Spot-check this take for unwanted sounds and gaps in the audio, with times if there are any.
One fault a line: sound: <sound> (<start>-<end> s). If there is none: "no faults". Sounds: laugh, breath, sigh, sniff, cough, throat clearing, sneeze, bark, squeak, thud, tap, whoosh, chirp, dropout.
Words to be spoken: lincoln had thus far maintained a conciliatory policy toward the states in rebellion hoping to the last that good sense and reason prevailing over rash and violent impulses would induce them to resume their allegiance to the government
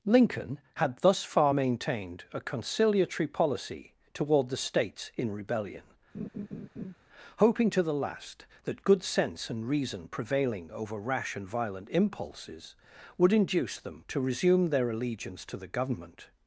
sound: laugh (6.1-7.0 s)